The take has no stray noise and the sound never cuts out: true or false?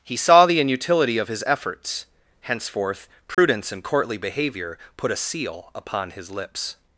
false